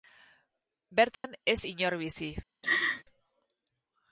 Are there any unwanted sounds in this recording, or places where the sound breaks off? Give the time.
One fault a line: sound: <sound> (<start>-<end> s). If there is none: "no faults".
sound: dropout (1.1-1.2 s)
sound: laugh (2.6-3.0 s)